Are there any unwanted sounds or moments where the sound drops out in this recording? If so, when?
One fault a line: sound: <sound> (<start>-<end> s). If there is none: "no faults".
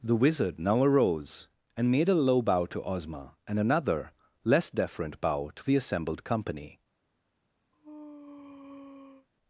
sound: sneeze (7.7-9.3 s)